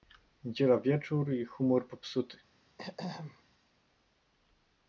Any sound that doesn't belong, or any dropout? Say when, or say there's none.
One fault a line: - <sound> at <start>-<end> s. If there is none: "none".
- throat clearing at 2.8-3.4 s